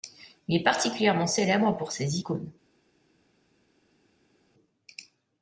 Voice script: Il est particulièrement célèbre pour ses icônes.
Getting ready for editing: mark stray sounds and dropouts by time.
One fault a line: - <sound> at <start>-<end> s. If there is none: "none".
none